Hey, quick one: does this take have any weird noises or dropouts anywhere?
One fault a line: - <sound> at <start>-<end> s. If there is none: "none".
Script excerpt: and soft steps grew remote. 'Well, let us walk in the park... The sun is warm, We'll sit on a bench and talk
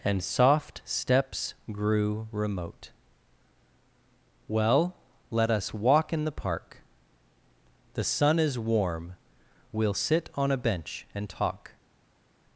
none